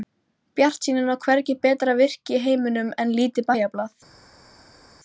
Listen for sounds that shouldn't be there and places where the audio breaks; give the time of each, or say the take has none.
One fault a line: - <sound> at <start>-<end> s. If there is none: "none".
none